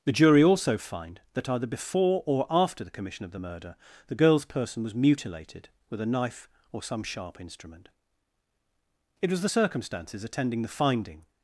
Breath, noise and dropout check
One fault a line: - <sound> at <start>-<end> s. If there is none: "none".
none